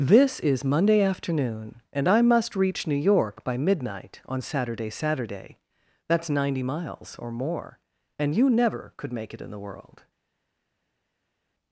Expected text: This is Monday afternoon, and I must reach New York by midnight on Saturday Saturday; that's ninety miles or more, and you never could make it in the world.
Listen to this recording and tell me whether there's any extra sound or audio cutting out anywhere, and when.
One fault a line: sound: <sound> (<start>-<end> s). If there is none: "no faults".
no faults